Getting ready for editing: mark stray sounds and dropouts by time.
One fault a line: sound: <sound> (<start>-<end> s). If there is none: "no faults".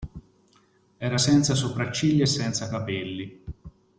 no faults